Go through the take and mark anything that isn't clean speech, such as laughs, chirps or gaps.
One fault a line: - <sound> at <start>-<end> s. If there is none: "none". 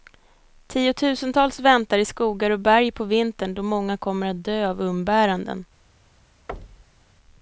- thud at 6.5-7.1 s